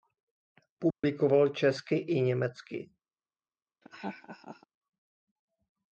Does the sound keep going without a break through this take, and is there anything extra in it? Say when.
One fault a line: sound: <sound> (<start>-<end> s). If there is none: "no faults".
sound: dropout (0.9-1.0 s)
sound: laugh (3.8-4.7 s)